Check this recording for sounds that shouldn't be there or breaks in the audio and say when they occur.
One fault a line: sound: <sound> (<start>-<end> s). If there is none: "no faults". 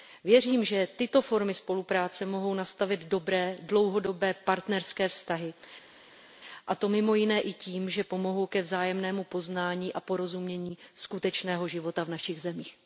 no faults